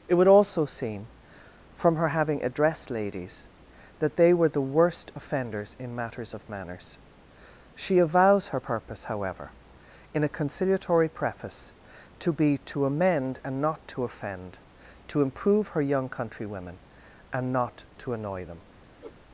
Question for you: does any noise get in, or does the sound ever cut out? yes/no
yes